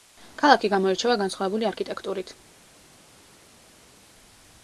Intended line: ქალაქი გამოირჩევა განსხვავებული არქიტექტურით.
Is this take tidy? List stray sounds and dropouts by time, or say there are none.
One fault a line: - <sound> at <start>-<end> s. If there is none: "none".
none